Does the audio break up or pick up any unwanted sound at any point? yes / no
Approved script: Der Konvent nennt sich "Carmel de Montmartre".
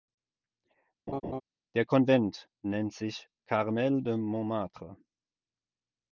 yes